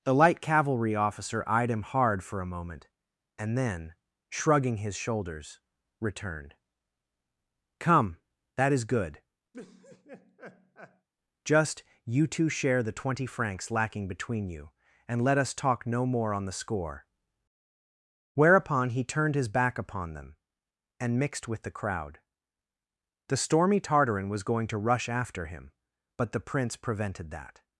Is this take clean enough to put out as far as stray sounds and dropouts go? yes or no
no